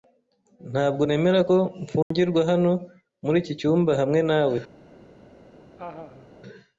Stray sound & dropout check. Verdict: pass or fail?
fail